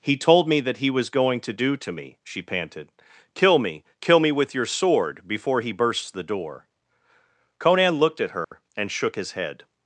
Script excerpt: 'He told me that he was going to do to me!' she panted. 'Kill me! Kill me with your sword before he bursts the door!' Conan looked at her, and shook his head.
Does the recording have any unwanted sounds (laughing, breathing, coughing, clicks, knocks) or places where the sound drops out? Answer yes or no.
yes